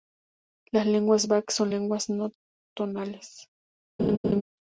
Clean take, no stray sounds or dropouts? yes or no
no